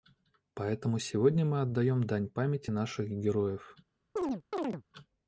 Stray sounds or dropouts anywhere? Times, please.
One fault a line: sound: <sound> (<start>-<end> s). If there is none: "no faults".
sound: chirp (4.2-4.8 s)